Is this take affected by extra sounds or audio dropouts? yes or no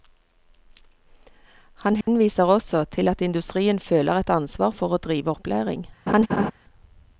yes